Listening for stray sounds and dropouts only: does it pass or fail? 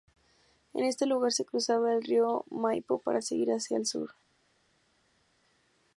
pass